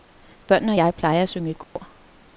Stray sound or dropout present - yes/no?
yes